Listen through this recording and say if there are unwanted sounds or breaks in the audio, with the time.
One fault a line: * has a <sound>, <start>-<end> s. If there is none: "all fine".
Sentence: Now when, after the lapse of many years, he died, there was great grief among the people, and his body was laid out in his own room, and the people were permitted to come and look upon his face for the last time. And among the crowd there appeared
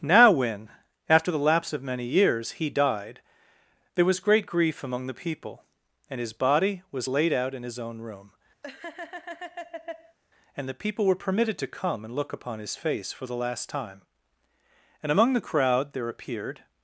* has a laugh, 8.6-10.2 s